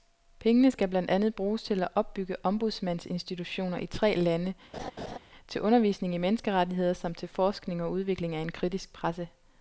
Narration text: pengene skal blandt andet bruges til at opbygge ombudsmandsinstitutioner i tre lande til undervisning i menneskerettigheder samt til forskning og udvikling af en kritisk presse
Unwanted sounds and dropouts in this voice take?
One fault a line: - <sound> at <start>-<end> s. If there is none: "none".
- laugh at 4.7-5.2 s